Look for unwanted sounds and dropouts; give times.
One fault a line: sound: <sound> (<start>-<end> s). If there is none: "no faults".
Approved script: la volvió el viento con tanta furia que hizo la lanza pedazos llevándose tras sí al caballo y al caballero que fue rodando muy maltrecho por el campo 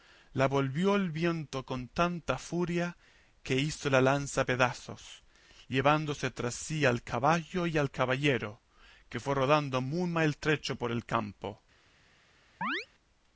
sound: chirp (12.6-12.9 s)